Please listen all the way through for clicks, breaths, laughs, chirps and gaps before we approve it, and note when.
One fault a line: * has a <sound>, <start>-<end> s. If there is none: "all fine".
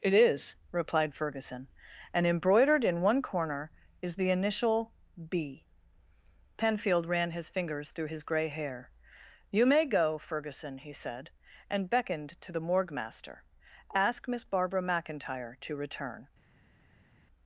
all fine